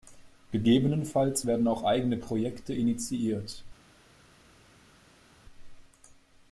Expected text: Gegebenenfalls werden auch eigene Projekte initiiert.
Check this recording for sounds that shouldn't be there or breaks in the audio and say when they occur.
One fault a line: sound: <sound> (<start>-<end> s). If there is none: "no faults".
no faults